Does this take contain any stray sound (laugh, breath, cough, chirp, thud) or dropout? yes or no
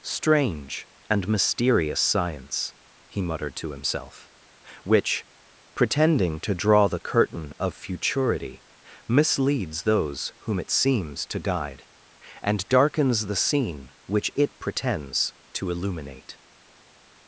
no